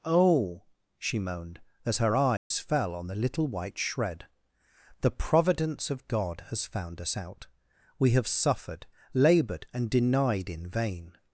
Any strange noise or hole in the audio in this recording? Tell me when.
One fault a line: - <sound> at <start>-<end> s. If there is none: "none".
- dropout at 2.4-2.5 s